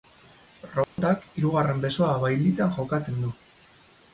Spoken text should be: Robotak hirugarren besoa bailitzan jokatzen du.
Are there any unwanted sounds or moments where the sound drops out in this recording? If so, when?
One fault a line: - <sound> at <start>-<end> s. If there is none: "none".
- dropout at 0.8-1.0 s